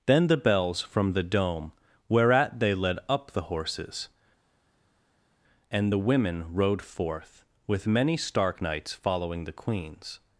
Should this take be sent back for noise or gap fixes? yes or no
no